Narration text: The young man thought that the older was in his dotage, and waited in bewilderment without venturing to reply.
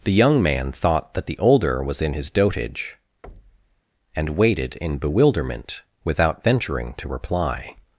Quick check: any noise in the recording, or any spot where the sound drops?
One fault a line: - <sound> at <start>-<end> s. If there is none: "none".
- thud at 3.2-3.8 s